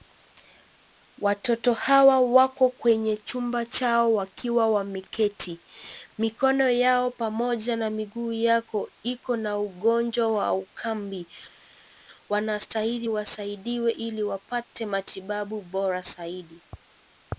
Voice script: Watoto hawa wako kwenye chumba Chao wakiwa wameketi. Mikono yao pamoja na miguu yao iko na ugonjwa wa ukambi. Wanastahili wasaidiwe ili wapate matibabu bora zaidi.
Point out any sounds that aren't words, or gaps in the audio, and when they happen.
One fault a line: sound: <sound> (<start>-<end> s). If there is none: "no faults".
no faults